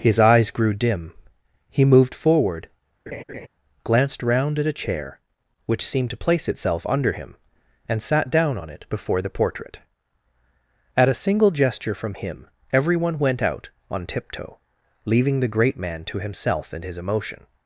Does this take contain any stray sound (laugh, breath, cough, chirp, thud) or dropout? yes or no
yes